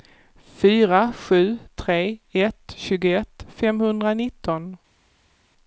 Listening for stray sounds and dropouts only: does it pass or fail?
pass